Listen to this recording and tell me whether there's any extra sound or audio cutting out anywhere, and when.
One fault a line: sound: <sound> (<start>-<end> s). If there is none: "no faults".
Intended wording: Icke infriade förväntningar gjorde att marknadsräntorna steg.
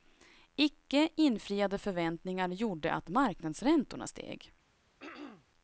sound: throat clearing (5.0-5.5 s)